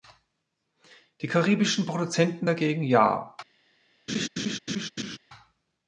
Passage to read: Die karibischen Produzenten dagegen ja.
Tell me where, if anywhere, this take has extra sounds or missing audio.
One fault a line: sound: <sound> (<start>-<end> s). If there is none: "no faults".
sound: laugh (4.1-5.2 s)